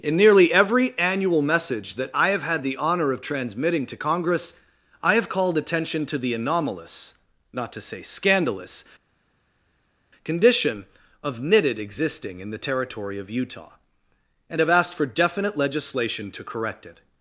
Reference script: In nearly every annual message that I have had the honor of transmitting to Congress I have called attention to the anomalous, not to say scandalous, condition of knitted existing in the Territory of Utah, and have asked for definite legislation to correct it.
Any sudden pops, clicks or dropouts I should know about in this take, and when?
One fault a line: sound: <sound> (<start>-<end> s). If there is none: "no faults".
no faults